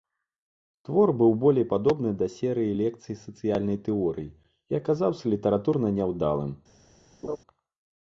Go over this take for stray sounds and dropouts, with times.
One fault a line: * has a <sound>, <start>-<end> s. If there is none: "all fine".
* has a laugh, 7.2-7.4 s